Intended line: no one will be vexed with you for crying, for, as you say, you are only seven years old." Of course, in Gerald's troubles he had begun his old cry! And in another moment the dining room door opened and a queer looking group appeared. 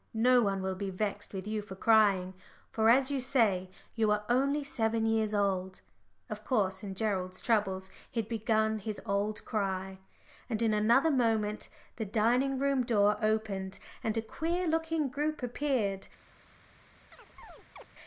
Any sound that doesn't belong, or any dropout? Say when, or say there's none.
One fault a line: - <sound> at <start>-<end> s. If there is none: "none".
- chirp at 17.1-17.9 s